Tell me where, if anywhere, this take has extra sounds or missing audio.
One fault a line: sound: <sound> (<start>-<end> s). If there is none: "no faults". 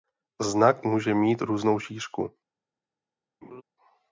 sound: laugh (3.4-3.6 s)